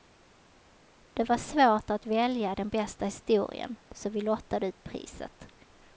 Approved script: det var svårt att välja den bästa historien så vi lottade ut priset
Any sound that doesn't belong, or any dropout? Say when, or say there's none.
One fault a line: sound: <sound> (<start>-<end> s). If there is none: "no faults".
no faults